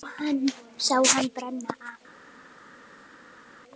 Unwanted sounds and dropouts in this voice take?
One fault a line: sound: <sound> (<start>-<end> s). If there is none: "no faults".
no faults